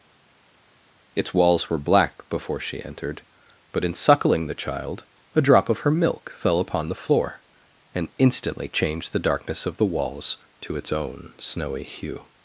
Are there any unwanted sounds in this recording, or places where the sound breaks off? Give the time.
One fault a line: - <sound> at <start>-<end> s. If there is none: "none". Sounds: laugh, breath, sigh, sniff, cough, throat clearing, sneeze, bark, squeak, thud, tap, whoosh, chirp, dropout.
none